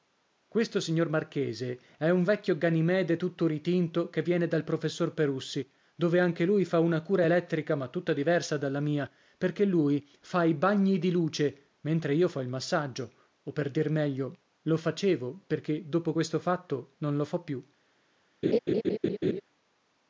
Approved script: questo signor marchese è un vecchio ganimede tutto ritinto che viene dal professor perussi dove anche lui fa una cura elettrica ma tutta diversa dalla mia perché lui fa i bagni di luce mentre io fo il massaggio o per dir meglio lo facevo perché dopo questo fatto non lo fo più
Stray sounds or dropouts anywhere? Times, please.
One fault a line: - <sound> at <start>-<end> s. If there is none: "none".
- laugh at 18.4-19.4 s